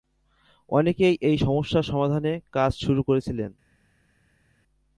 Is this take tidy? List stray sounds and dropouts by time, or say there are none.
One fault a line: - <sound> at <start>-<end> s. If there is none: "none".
none